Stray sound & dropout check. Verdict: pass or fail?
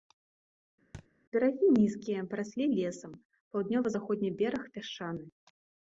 fail